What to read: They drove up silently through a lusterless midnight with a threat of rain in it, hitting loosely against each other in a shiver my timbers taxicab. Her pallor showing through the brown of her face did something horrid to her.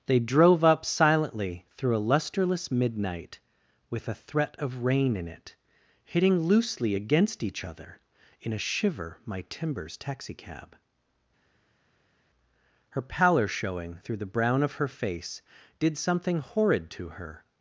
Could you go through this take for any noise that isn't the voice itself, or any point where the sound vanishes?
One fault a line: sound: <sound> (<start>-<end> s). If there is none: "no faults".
no faults